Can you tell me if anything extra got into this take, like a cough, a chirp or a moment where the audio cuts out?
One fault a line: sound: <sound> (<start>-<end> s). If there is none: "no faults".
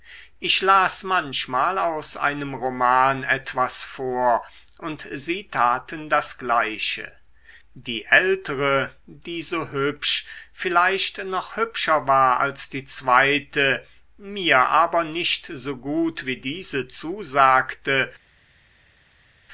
no faults